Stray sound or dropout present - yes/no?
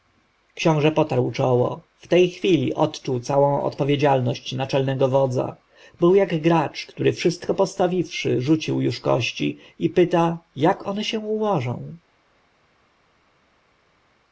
no